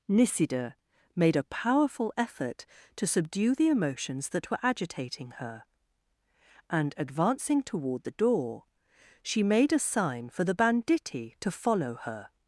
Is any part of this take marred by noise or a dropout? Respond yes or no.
no